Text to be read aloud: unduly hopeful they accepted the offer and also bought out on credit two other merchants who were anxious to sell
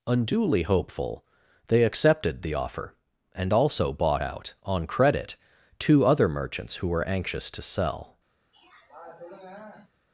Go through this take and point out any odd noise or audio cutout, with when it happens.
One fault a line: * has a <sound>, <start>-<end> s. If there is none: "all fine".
* has a throat clearing, 8.5-9.9 s